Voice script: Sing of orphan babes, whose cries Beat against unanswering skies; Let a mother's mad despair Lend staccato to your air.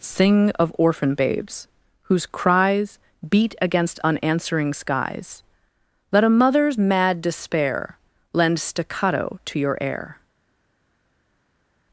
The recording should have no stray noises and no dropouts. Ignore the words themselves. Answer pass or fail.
pass